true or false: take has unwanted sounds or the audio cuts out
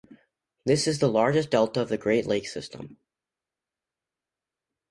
false